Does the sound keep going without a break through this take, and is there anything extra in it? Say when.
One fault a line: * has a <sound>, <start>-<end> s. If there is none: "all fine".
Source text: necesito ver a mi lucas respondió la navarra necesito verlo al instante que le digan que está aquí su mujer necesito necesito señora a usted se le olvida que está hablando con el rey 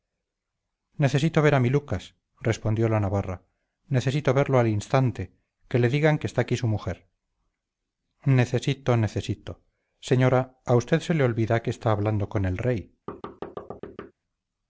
* has a thud, 13.1-14.1 s